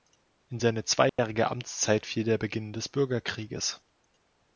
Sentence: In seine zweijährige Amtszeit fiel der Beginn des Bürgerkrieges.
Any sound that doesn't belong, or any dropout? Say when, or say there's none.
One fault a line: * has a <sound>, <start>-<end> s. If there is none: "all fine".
* has a dropout, 1.1-1.2 s